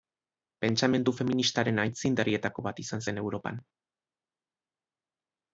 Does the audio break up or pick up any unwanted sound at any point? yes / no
no